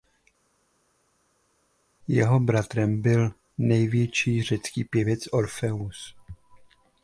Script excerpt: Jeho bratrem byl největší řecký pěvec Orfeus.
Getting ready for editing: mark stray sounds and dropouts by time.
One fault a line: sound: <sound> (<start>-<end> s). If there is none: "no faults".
no faults